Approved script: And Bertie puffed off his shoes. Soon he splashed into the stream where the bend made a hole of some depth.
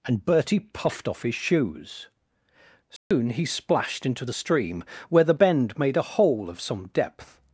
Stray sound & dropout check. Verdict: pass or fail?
fail